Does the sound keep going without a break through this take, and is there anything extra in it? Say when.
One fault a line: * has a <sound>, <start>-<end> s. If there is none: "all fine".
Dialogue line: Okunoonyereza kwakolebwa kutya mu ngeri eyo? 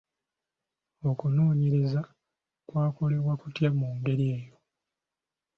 all fine